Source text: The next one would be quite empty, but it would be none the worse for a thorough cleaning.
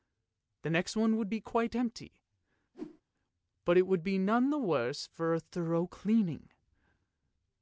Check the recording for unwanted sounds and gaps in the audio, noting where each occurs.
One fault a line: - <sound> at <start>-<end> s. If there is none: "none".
- whoosh at 2.7-3.0 s